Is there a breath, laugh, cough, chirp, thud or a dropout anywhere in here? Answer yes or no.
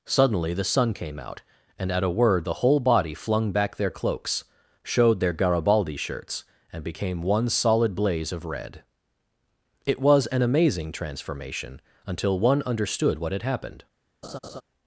yes